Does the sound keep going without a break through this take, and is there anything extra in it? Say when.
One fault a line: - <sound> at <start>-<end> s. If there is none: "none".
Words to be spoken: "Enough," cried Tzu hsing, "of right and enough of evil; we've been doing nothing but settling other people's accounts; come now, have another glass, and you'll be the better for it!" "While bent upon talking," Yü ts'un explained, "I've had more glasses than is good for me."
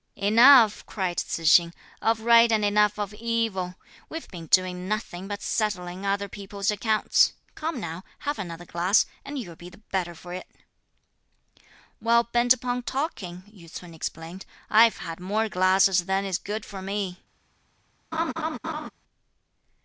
- laugh at 18.1-18.9 s